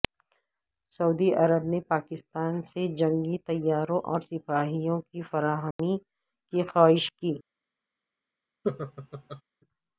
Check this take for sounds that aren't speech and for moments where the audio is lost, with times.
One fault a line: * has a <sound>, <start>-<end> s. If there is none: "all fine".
* has a dropout, 5.7-5.8 s
* has a laugh, 8.6-9.4 s